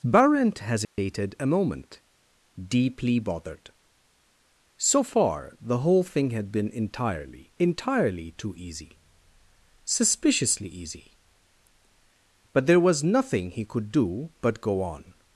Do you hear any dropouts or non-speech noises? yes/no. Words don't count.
yes